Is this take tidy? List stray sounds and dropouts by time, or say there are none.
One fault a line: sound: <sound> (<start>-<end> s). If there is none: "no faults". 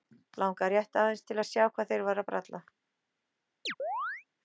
sound: chirp (3.7-4.2 s)